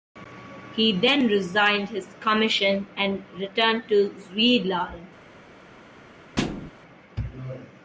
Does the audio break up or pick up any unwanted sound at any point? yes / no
yes